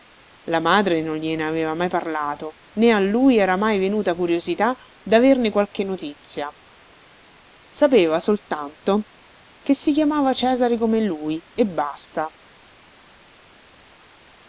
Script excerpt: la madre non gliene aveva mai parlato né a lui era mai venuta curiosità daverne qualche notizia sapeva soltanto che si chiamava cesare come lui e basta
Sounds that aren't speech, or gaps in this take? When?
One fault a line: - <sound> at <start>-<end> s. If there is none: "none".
none